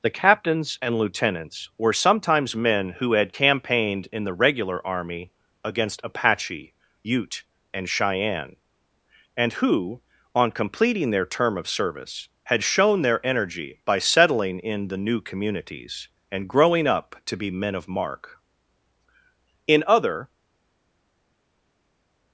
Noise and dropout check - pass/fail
pass